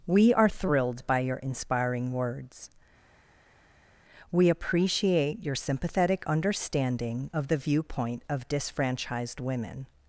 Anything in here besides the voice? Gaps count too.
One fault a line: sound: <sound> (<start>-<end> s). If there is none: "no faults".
no faults